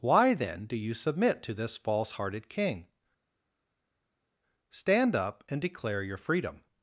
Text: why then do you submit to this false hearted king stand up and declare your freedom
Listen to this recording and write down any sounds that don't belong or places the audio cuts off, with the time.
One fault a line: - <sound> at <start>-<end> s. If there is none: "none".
none